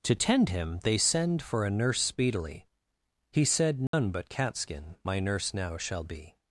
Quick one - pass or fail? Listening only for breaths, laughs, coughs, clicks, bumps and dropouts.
fail